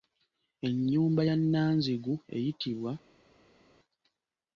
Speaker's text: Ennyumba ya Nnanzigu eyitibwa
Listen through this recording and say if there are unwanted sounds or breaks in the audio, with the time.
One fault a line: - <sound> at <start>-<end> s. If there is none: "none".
none